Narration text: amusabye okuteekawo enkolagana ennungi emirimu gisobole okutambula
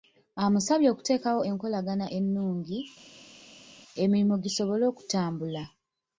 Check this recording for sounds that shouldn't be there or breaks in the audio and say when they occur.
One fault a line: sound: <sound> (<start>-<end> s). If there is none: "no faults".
no faults